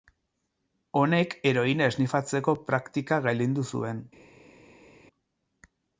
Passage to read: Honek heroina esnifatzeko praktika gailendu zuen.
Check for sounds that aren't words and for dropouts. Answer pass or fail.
pass